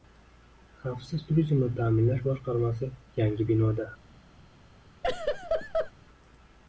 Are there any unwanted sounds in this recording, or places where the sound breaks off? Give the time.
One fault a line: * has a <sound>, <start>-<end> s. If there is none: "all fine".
* has a laugh, 5.0-5.9 s